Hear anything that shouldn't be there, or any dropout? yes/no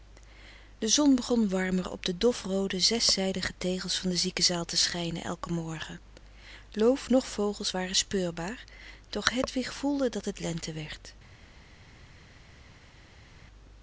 no